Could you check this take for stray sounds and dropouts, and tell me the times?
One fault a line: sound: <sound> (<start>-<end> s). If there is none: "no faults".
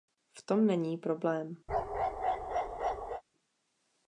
sound: bark (1.7-3.2 s)